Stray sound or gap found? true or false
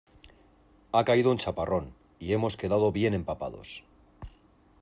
false